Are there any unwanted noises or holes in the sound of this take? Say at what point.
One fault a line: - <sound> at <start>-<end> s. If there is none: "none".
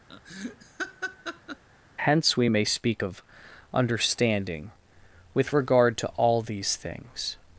- laugh at 0.1-1.6 s